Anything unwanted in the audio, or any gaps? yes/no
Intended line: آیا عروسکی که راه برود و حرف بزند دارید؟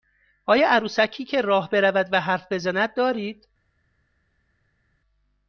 no